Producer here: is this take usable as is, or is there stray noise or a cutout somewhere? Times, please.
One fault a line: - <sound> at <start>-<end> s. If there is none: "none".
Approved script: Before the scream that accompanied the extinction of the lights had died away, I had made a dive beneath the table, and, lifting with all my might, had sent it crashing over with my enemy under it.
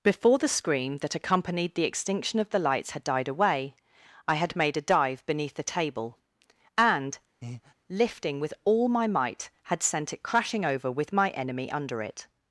- breath at 7.4-7.7 s